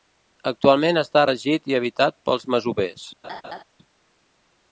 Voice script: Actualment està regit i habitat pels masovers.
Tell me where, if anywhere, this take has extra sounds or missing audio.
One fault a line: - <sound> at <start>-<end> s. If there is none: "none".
- laugh at 3.2-3.6 s